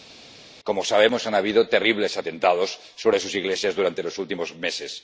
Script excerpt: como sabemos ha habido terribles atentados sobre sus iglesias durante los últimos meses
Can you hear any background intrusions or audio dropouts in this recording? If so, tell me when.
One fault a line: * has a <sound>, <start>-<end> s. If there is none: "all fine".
all fine